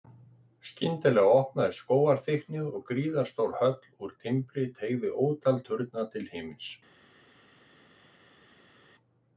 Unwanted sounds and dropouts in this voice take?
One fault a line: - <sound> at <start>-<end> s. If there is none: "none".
none